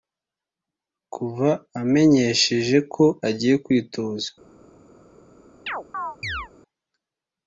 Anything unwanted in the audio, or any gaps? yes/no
yes